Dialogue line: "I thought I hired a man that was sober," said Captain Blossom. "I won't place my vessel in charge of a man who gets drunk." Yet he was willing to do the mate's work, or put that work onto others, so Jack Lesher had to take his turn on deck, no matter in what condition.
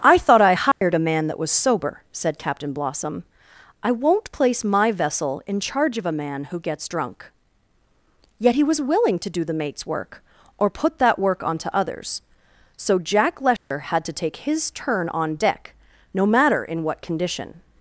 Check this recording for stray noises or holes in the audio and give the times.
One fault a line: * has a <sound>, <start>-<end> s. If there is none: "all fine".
* has a dropout, 0.7-0.8 s
* has a dropout, 13.6-13.7 s